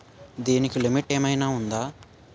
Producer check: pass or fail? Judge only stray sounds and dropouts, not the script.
pass